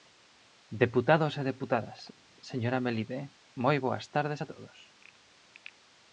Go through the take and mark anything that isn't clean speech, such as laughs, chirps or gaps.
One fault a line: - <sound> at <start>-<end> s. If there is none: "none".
none